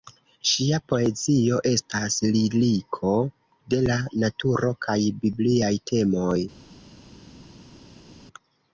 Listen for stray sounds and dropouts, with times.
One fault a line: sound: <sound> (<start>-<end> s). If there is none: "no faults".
no faults